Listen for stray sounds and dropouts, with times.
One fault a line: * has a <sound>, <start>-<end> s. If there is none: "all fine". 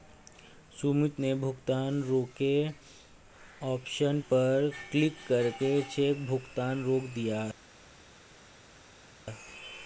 all fine